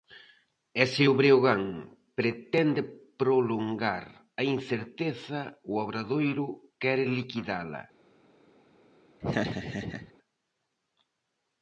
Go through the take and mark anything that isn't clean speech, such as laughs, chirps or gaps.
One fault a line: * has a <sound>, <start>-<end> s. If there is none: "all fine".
* has a laugh, 9.2-10.1 s